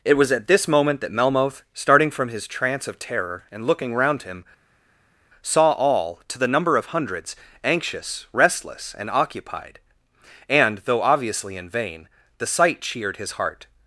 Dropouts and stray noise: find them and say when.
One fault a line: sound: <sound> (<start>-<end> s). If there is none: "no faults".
no faults